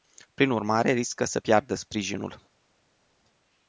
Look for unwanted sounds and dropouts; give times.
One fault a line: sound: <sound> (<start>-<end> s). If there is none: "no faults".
no faults